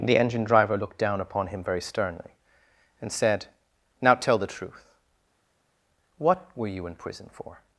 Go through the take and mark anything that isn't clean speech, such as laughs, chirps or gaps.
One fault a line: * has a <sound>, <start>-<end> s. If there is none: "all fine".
all fine